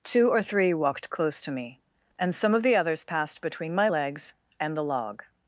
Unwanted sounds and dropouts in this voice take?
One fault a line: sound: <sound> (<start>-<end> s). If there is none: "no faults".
no faults